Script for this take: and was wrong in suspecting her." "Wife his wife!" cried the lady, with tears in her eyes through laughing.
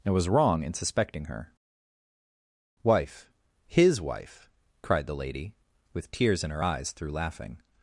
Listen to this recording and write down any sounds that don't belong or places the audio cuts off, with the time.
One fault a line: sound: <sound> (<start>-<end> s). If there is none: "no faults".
no faults